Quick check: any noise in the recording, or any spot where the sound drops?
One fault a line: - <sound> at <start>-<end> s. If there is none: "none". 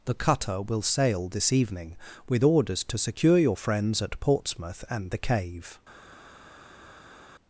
none